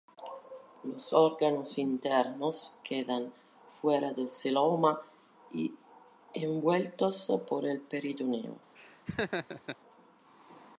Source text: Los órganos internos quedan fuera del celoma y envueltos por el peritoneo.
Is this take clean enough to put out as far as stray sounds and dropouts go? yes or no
no